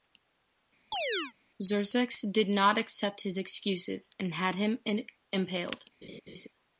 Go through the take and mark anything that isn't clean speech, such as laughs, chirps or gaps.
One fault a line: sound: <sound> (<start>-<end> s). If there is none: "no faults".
sound: chirp (0.9-1.3 s)
sound: laugh (6.0-6.5 s)